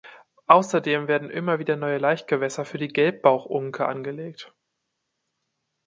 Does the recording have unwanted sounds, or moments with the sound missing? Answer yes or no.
no